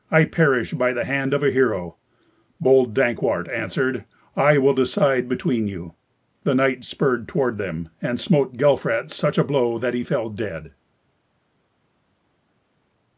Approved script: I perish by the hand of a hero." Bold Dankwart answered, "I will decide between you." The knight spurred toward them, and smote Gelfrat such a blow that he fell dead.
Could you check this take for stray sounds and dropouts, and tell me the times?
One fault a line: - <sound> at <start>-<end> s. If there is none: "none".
none